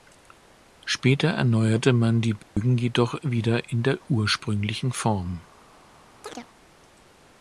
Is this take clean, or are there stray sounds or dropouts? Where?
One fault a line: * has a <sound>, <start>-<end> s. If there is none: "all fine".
* has a dropout, 2.4-2.6 s
* has a chirp, 6.2-6.5 s